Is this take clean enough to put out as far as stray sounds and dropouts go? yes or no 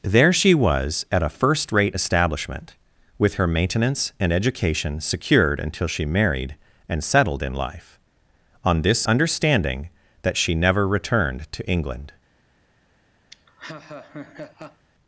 no